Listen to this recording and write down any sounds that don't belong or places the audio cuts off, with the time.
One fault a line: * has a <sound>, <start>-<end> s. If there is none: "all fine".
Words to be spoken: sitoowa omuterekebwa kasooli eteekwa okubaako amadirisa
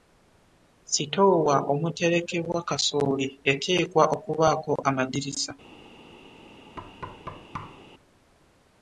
* has a thud, 6.8-7.8 s